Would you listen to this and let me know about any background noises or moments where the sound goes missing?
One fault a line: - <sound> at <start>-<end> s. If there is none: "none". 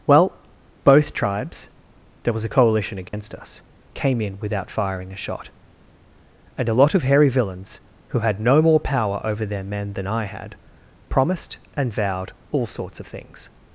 - dropout at 3.1-3.1 s